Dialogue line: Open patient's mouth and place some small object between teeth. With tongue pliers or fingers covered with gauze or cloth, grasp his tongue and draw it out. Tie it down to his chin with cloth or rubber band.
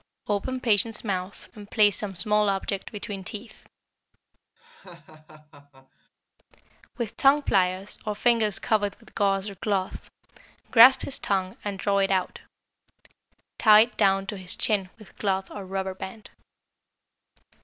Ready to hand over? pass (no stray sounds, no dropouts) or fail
fail